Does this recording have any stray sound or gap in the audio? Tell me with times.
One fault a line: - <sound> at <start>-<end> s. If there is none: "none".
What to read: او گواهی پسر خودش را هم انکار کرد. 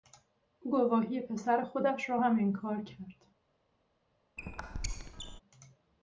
- squeak at 4.4-5.4 s